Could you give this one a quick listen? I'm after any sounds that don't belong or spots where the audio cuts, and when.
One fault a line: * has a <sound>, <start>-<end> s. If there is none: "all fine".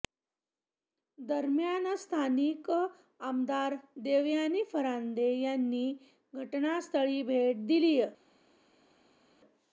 all fine